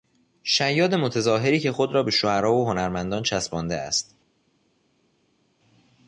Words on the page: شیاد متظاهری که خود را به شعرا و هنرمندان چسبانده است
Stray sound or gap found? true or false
false